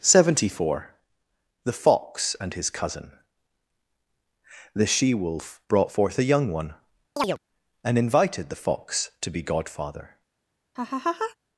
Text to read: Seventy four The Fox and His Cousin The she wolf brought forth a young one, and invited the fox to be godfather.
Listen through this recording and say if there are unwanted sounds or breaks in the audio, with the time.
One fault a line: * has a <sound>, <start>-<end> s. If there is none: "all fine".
* has a chirp, 7.2-7.4 s
* has a laugh, 10.8-11.4 s